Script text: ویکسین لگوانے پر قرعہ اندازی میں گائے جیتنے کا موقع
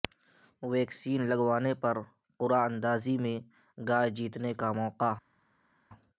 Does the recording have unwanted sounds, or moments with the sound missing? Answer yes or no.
no